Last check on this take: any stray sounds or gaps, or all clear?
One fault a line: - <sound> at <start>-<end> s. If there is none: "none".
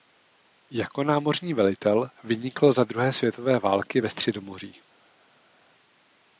none